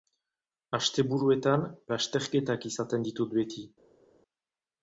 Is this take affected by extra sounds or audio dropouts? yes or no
no